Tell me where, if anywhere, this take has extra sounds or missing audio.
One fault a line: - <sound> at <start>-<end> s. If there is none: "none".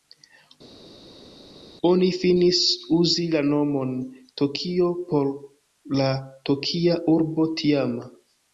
none